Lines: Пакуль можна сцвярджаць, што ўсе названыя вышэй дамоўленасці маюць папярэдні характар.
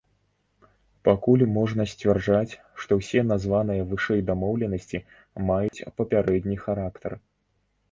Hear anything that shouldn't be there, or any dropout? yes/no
yes